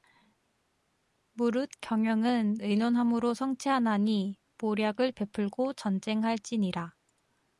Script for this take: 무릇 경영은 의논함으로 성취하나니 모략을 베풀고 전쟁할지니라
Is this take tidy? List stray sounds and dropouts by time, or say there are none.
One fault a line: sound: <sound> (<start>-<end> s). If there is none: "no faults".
no faults